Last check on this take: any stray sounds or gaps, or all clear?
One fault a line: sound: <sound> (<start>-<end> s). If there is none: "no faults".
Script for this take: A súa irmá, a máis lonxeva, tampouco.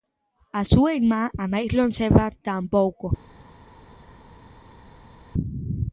no faults